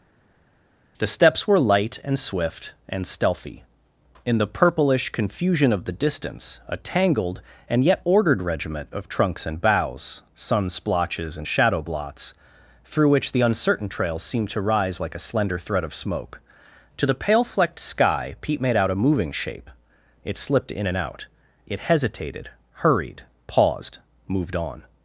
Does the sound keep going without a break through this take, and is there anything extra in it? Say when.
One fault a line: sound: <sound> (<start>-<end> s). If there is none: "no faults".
no faults